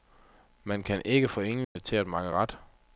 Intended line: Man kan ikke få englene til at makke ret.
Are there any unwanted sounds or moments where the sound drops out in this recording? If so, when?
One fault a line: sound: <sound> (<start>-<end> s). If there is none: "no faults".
sound: dropout (1.6-1.8 s)